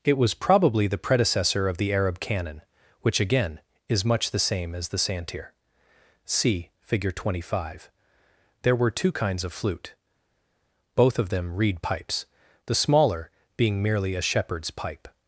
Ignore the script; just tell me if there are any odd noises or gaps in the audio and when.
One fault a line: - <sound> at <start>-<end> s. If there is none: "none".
none